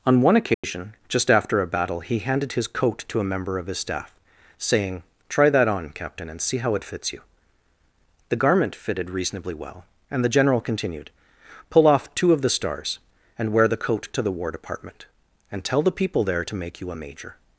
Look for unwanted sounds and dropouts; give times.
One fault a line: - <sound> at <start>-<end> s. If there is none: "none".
- dropout at 0.5-0.6 s